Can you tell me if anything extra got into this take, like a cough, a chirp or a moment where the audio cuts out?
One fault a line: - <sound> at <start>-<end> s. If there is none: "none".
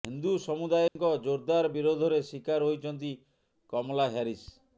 - dropout at 0.9-1.0 s